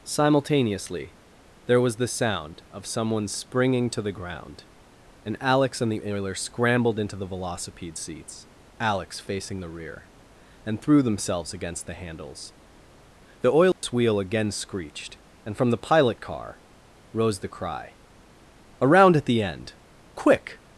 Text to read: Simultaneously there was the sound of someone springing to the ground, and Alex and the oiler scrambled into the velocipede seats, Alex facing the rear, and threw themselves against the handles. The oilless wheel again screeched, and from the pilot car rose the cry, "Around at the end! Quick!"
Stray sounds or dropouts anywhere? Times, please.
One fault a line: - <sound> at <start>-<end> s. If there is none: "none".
- dropout at 13.7-13.8 s